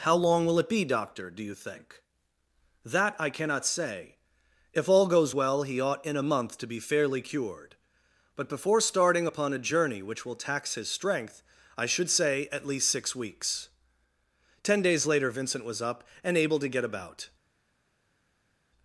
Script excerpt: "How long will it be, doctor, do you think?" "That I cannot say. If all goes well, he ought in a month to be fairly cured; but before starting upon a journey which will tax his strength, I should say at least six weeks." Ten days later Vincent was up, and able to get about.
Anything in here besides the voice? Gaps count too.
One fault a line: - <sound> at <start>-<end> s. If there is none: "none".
none